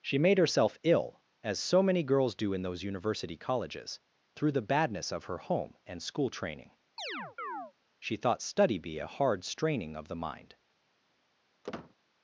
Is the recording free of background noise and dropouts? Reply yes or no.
no